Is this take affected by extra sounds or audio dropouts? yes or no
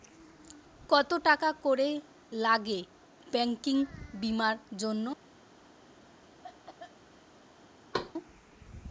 yes